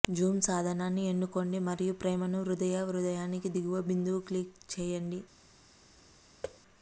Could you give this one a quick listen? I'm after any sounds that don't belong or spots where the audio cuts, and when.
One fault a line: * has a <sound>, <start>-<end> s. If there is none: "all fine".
* has a thud, 6.4-6.6 s